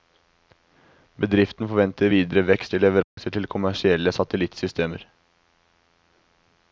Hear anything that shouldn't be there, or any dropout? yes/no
yes